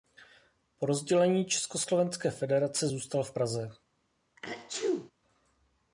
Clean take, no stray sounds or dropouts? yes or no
no